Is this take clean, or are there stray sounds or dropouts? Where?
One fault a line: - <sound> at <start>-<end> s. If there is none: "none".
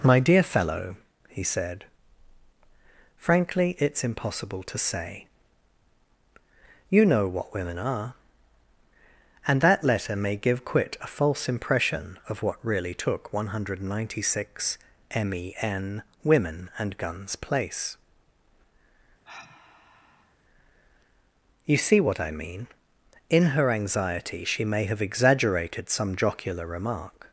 - sigh at 19.2-20.3 s